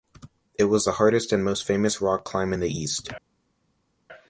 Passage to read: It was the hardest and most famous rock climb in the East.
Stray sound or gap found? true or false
false